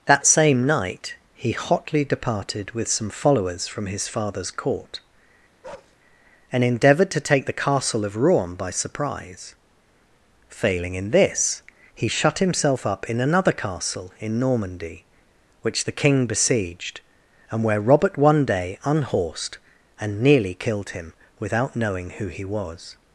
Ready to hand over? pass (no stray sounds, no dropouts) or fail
fail